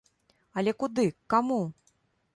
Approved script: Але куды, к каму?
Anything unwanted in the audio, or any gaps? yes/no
no